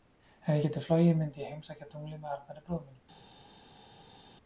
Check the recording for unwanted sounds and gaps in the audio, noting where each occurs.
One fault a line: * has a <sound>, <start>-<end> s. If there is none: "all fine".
all fine